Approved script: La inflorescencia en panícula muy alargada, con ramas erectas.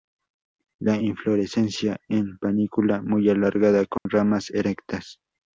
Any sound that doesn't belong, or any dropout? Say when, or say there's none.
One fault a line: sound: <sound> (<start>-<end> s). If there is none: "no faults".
sound: dropout (4.0-4.1 s)